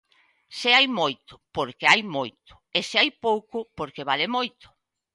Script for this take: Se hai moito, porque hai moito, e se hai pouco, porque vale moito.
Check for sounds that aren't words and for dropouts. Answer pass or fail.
pass